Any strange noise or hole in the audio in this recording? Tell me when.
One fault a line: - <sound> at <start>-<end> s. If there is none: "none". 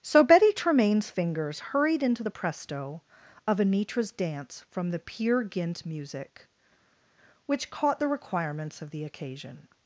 none